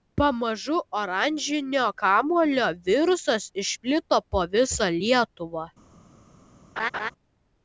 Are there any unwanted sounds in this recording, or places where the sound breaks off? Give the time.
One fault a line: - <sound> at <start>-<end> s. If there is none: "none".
- laugh at 6.8-7.1 s